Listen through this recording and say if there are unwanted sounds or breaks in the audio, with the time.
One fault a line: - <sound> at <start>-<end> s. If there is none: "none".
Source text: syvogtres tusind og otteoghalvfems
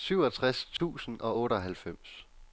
- dropout at 0.8-0.8 s